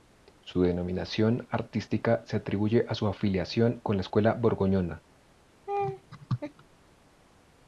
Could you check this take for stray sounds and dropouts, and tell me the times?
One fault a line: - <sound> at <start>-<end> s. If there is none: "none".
- laugh at 5.7-6.6 s